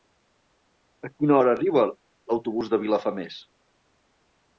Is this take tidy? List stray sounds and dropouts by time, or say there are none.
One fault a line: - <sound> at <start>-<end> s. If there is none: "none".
none